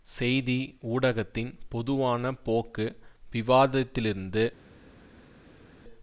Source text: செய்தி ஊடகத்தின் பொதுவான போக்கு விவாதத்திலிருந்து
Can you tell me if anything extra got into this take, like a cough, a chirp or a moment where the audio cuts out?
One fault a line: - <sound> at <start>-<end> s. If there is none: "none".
none